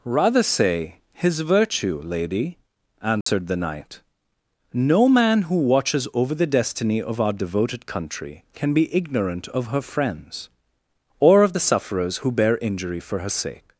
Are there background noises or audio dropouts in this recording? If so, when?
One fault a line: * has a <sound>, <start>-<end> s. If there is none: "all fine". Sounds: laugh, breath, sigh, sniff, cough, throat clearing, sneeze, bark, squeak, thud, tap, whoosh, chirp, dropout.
* has a dropout, 3.2-3.3 s